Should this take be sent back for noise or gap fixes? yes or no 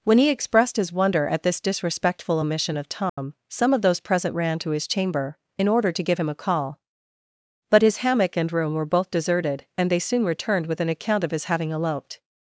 yes